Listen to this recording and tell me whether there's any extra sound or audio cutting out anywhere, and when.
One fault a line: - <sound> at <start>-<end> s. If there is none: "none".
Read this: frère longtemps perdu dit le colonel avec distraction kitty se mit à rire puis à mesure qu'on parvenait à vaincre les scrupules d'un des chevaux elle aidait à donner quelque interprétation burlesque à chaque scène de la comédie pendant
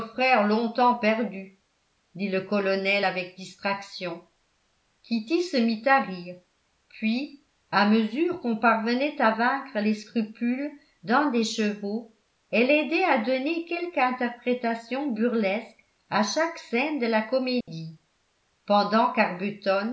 - dropout at 17.6-17.7 s